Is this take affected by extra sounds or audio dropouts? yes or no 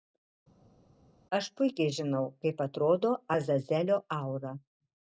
no